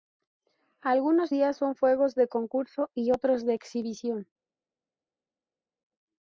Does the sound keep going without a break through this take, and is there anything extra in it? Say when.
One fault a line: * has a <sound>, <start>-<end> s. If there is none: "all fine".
all fine